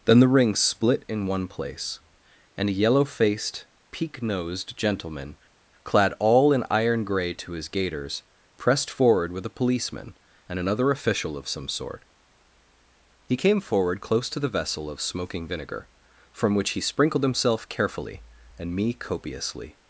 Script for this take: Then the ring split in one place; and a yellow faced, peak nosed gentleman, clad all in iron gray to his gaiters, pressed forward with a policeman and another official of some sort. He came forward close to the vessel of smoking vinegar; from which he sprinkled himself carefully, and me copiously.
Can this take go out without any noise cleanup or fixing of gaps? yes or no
yes